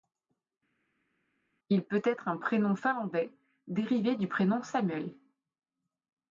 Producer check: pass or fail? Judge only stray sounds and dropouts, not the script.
pass